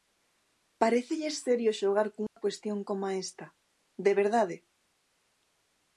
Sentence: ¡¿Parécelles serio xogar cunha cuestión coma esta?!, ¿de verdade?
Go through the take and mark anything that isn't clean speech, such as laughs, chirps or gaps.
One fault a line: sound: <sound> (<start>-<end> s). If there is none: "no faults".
sound: dropout (2.3-2.4 s)